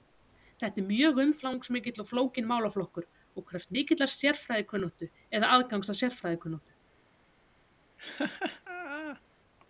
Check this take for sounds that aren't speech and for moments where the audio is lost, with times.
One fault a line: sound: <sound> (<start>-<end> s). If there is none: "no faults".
sound: laugh (8.0-9.2 s)